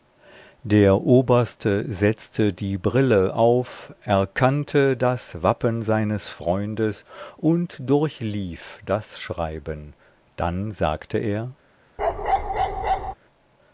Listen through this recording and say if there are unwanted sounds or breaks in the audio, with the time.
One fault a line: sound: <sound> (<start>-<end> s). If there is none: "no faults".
sound: bark (12.0-13.1 s)